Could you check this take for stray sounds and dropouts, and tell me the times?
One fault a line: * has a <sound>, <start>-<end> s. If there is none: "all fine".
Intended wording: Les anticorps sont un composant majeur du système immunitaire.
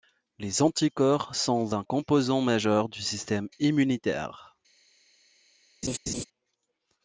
* has a laugh, 5.8-6.2 s